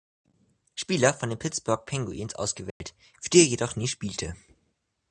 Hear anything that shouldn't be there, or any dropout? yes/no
yes